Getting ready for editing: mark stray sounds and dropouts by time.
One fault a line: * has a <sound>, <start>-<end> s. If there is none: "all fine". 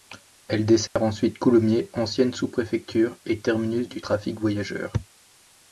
* has a dropout, 0.9-1.0 s